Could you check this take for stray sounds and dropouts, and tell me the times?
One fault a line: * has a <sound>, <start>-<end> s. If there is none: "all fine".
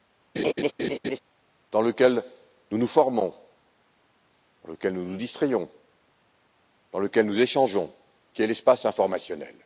* has a laugh, 0.4-1.2 s